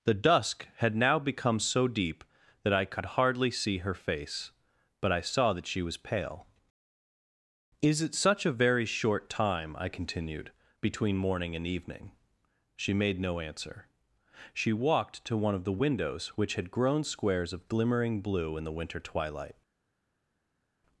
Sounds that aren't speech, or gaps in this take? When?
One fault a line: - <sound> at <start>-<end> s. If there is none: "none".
none